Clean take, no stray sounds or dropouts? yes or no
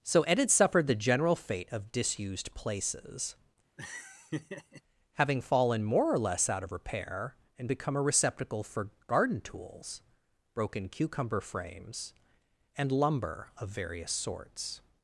no